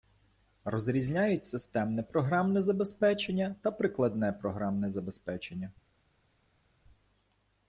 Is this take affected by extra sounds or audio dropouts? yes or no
no